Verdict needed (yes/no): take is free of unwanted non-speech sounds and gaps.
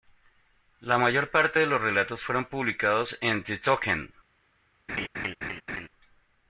no